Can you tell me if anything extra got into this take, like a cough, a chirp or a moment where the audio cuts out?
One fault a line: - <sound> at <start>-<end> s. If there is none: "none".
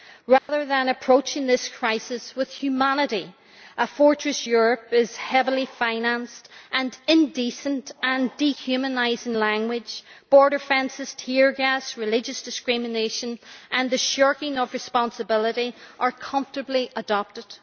- dropout at 0.4-0.5 s